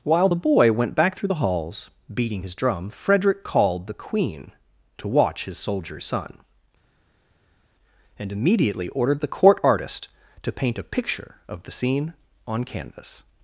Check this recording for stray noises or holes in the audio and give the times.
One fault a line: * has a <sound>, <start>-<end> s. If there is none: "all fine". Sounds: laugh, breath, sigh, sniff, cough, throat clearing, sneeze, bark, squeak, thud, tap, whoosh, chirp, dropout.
all fine